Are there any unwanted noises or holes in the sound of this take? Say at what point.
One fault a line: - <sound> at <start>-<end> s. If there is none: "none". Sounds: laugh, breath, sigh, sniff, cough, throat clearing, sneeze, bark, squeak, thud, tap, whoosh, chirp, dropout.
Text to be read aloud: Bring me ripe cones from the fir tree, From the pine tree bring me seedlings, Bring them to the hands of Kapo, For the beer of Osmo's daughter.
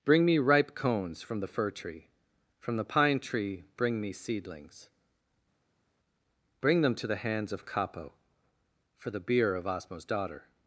none